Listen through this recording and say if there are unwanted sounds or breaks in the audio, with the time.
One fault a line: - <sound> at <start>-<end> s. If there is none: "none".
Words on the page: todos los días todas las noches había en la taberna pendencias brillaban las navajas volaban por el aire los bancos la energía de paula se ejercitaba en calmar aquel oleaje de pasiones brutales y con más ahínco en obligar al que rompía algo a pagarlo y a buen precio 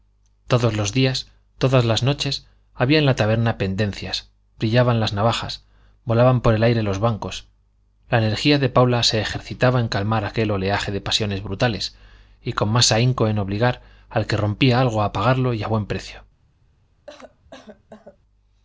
- cough at 17.1-18.2 s